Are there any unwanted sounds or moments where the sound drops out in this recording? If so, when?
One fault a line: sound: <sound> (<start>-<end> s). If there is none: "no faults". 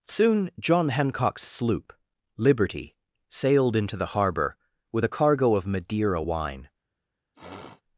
sound: sniff (7.3-7.8 s)